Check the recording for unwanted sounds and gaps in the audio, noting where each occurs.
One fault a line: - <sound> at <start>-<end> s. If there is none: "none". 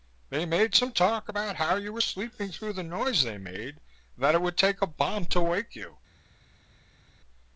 none